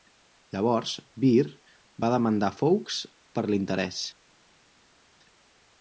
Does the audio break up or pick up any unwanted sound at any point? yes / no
no